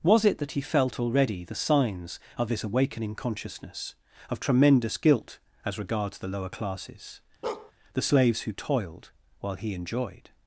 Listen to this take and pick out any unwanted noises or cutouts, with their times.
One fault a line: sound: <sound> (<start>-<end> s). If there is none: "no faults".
sound: bark (7.4-7.7 s)